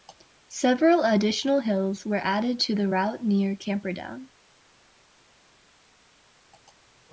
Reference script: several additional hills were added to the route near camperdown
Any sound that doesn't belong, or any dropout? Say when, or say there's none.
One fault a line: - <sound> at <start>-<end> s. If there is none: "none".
none